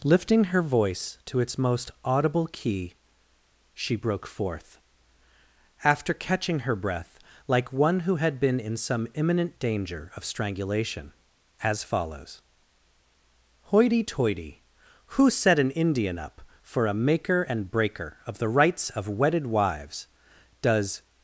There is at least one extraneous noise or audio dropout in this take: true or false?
false